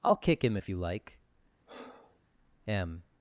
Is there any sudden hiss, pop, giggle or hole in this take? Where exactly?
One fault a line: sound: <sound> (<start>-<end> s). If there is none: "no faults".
sound: breath (1.7-2.2 s)